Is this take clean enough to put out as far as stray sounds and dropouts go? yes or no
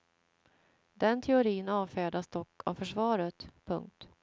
yes